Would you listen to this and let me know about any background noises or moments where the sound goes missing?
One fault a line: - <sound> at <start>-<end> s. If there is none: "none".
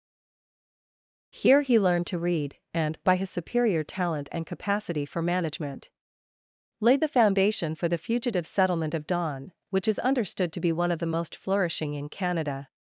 none